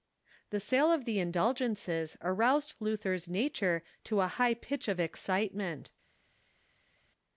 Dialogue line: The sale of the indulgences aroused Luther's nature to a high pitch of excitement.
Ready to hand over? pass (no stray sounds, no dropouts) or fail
pass